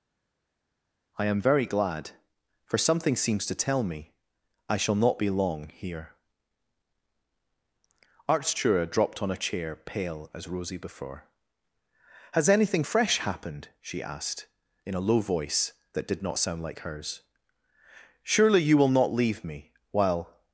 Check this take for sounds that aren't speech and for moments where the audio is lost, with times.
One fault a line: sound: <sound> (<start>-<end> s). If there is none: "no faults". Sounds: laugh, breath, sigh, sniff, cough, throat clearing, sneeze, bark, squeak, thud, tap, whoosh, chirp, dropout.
no faults